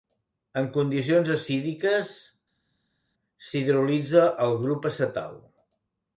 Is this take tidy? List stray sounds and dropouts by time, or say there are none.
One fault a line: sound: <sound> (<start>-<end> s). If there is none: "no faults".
no faults